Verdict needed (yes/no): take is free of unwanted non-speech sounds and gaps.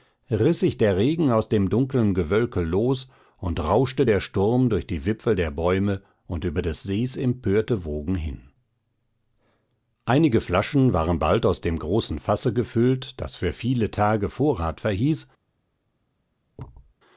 no